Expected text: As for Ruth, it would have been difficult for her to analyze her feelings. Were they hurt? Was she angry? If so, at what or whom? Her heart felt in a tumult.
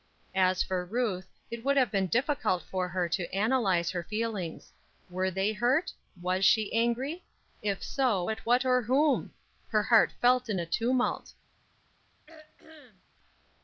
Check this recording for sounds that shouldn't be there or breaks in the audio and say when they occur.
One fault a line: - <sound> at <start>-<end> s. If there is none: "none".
- throat clearing at 12.3-13.0 s